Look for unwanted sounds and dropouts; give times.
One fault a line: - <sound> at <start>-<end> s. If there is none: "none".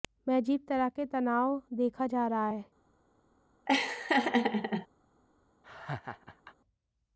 - laugh at 3.7-4.9 s
- laugh at 5.6-6.5 s